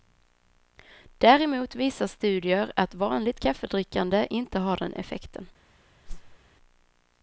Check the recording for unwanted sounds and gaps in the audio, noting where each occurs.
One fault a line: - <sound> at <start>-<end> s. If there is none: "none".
- whoosh at 6.0-6.4 s